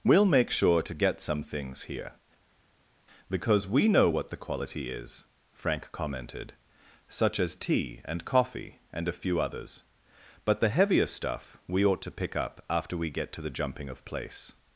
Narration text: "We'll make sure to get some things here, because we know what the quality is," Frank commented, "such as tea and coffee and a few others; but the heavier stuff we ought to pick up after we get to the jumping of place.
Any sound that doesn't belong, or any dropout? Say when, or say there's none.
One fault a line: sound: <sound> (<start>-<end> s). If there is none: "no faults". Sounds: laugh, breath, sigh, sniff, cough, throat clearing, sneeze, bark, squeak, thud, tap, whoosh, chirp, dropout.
no faults